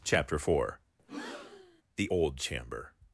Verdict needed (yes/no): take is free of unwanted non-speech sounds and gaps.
no